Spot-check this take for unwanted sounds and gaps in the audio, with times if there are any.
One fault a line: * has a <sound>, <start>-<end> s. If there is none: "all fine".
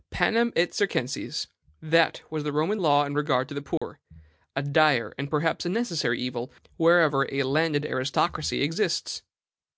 * has a dropout, 3.8-3.8 s